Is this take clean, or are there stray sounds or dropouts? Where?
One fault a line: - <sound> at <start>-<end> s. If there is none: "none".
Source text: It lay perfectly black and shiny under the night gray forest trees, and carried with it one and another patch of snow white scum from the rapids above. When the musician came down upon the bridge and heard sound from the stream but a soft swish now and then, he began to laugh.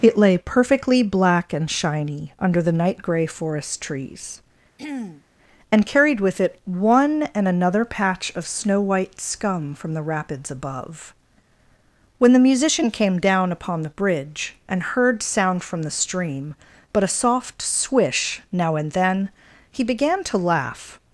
- throat clearing at 4.8-5.2 s